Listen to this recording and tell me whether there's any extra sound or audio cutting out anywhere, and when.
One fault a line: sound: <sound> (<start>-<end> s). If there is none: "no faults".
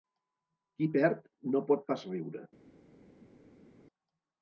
no faults